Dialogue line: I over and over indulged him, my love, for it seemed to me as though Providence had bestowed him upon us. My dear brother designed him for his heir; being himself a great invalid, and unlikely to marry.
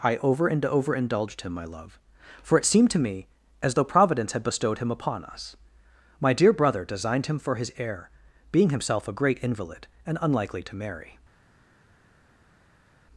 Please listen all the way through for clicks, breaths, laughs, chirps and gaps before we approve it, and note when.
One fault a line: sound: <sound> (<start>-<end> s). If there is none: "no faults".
no faults